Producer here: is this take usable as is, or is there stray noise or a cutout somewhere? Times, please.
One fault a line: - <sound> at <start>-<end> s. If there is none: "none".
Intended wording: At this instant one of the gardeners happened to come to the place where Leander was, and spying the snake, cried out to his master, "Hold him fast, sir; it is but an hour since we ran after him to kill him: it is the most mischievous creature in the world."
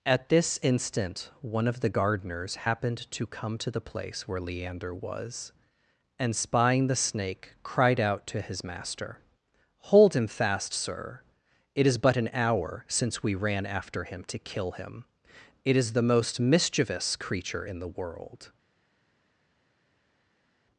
none